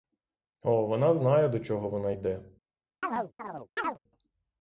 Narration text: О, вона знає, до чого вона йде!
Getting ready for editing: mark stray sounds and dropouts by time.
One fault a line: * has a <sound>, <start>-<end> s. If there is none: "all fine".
* has a chirp, 3.0-4.0 s